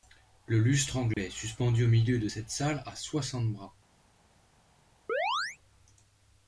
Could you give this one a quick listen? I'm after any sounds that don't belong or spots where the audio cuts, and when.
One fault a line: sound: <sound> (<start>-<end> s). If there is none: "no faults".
sound: dropout (1.1-1.2 s)
sound: chirp (5.1-5.6 s)